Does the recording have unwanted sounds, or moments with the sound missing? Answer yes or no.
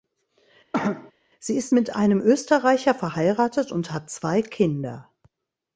yes